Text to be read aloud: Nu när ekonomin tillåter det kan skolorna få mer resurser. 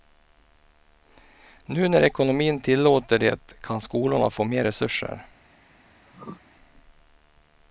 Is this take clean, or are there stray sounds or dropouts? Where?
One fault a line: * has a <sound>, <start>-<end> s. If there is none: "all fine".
* has a throat clearing, 6.0-6.4 s